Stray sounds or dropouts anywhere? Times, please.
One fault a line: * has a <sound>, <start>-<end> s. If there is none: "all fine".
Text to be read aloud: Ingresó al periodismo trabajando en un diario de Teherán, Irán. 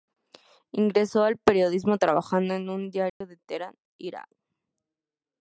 * has a dropout, 3.1-3.2 s